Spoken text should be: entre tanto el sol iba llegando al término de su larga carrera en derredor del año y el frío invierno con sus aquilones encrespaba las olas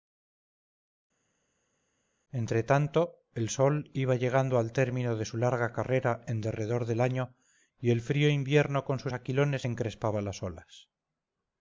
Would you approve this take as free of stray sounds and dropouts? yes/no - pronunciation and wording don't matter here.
yes